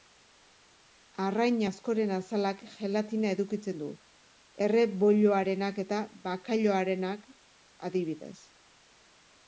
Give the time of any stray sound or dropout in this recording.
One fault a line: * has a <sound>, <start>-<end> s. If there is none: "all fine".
all fine